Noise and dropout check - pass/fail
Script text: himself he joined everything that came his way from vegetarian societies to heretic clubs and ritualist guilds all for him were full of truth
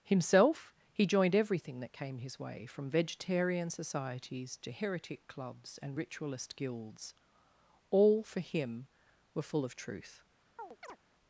fail